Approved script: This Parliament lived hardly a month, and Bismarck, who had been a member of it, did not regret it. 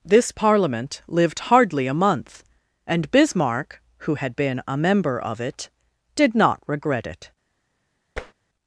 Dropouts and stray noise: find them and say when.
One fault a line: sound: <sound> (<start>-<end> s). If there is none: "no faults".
sound: tap (8.2-8.3 s)